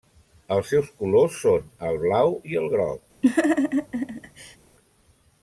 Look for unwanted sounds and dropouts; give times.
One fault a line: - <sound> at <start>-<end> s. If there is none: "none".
- laugh at 3.2-4.6 s